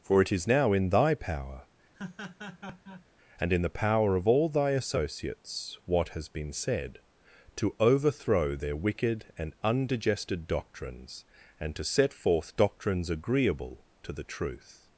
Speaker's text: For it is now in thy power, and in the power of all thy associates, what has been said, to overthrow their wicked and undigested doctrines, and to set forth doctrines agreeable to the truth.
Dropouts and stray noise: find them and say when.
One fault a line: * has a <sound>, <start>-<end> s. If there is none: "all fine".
* has a laugh, 1.9-3.1 s